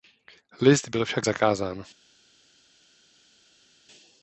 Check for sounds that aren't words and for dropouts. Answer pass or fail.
pass